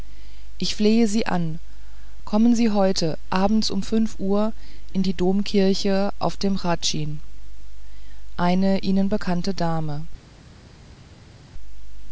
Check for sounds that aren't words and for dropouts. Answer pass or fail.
pass